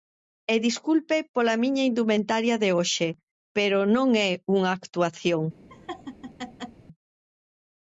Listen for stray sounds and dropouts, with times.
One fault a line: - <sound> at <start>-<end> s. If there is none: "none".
- laugh at 5.7-6.8 s